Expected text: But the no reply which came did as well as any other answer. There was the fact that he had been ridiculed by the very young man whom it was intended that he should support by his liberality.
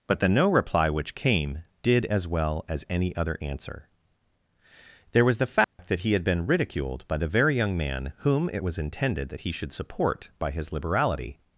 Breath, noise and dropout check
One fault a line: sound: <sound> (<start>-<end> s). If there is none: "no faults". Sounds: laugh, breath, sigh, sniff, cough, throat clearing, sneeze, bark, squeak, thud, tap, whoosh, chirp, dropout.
sound: dropout (5.6-5.8 s)